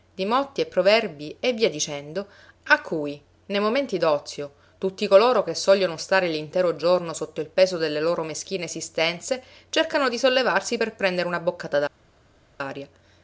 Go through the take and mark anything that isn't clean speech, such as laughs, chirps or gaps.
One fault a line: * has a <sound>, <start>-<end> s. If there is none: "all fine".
all fine